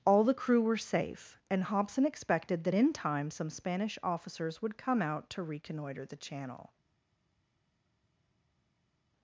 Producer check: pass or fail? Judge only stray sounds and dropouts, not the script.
pass